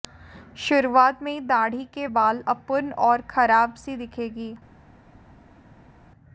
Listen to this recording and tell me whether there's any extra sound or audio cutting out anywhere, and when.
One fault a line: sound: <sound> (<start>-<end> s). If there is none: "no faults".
no faults